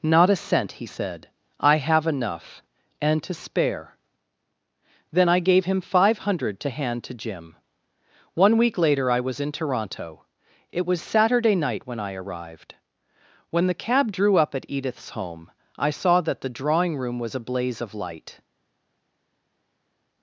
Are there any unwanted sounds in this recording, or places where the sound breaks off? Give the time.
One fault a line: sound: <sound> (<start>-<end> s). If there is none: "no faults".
no faults